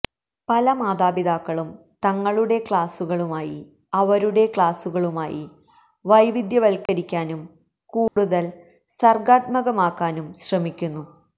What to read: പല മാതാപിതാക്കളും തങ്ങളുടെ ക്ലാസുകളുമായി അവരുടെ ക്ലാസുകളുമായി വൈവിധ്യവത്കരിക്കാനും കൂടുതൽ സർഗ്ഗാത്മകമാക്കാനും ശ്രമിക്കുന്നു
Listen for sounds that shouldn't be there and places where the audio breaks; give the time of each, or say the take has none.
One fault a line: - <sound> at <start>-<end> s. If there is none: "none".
- dropout at 6.9-6.9 s
- dropout at 8.1-8.2 s